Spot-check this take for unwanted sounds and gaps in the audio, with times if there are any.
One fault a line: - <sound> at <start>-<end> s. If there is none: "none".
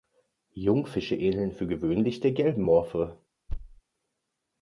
- thud at 3.5-3.8 s